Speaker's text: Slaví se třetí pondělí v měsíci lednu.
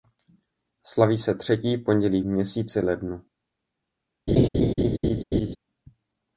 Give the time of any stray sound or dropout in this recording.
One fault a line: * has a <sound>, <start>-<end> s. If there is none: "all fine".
* has a laugh, 4.3-5.6 s